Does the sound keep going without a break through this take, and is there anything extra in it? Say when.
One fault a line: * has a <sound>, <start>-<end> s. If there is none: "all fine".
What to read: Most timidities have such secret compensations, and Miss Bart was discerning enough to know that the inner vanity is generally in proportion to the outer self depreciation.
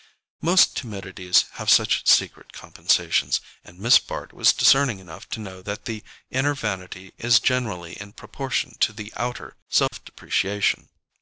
* has a dropout, 9.9-9.9 s